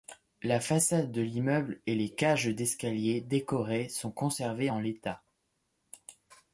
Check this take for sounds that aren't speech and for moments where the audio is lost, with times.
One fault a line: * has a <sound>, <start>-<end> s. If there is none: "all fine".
all fine